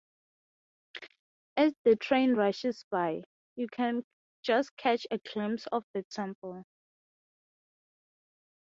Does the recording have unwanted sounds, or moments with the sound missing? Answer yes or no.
no